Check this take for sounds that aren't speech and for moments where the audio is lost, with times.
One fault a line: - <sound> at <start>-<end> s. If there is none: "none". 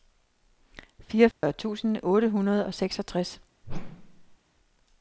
- dropout at 1.3-1.4 s
- whoosh at 3.6-4.4 s